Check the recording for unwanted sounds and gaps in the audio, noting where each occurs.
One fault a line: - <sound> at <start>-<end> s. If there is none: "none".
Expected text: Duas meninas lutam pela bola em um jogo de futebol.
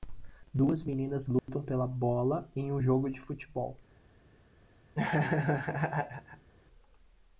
- dropout at 1.4-1.5 s
- laugh at 4.9-6.5 s